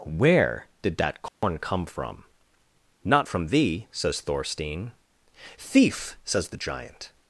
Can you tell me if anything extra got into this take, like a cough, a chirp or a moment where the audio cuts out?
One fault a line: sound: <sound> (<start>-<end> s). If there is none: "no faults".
sound: dropout (1.3-1.4 s)